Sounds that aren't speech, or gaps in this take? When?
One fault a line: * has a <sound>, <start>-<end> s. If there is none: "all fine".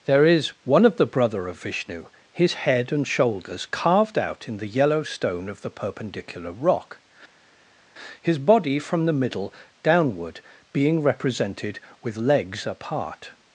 all fine